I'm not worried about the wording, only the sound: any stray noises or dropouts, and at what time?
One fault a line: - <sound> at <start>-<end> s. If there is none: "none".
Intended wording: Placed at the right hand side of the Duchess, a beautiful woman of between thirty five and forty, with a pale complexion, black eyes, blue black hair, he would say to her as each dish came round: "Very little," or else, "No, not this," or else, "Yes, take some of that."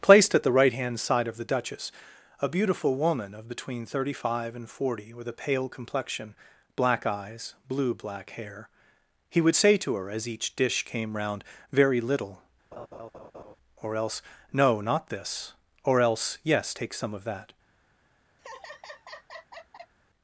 - laugh at 12.7-13.6 s
- laugh at 18.4-19.9 s